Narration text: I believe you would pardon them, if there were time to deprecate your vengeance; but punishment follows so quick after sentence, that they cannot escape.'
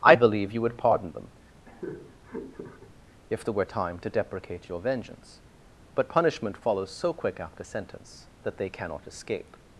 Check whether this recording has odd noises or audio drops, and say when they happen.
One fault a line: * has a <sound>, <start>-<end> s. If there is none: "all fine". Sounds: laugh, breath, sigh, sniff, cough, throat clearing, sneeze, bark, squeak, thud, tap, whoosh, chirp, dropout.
* has a laugh, 1.7-2.9 s